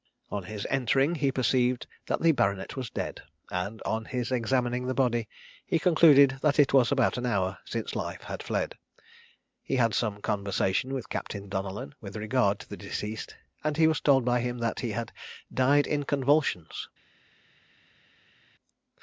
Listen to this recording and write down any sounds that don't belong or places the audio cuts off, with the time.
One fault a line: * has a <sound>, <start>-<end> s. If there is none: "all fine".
all fine